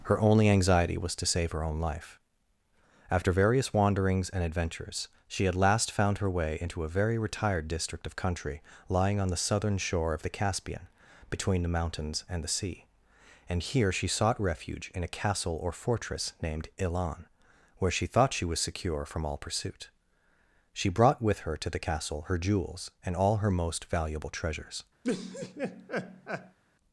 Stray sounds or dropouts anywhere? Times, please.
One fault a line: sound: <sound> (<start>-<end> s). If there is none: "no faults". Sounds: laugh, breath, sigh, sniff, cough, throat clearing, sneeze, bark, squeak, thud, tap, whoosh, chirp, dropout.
sound: laugh (25.0-26.6 s)